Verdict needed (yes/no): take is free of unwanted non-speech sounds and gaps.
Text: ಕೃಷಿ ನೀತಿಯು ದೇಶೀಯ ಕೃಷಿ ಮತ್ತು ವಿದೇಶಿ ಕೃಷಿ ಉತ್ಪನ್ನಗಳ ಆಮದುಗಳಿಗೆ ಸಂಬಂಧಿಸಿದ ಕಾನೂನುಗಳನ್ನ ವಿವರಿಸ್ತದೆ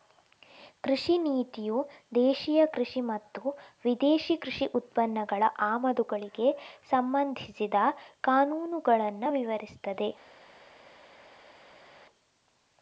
yes